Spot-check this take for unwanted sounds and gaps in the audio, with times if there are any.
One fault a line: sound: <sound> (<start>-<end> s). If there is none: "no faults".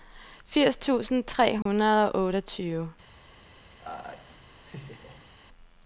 sound: dropout (1.6-1.7 s)
sound: laugh (3.8-5.3 s)